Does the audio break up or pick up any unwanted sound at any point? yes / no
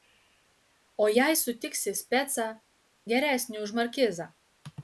no